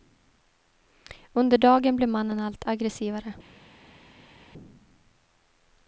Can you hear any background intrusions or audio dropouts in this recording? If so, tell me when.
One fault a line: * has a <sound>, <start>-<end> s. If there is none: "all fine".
all fine